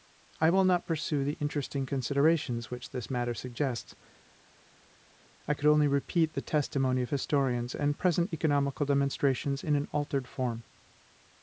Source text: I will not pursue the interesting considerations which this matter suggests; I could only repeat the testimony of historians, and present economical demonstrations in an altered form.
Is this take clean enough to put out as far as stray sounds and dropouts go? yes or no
yes